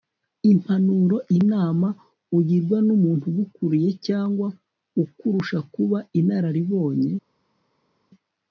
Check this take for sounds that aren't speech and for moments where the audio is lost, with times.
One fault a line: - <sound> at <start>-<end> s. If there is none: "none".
none